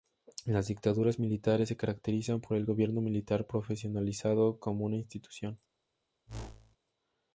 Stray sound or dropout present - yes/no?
yes